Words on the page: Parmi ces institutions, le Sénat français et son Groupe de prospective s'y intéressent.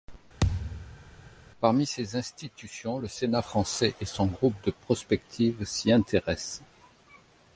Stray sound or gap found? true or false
true